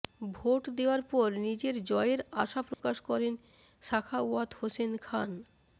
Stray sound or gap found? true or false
true